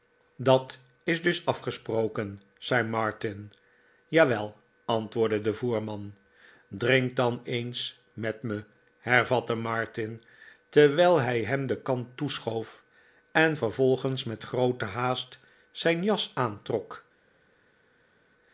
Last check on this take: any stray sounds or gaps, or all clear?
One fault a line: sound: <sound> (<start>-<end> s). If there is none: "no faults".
no faults